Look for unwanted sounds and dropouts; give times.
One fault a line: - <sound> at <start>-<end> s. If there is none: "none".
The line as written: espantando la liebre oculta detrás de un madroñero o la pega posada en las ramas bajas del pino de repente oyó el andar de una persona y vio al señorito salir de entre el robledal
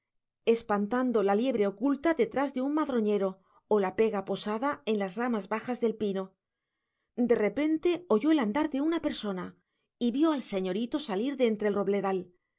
none